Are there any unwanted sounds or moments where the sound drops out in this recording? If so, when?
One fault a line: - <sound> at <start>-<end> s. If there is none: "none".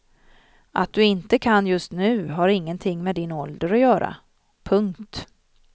none